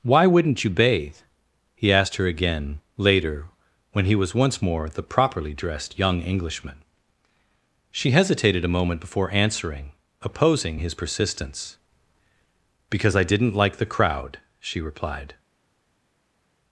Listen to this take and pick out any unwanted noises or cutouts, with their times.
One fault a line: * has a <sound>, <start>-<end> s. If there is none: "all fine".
all fine